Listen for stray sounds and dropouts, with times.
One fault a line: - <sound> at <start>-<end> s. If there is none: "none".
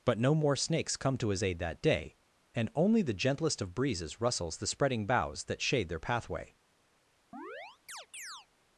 - chirp at 7.3-8.5 s